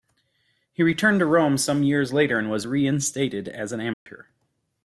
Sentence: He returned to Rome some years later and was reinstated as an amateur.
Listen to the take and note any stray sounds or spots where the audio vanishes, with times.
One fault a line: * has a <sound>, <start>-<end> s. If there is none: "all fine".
* has a dropout, 3.9-4.1 s